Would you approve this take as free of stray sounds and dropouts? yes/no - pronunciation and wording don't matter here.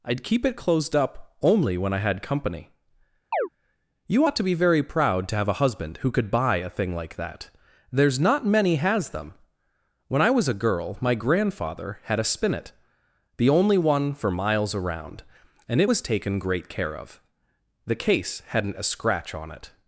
no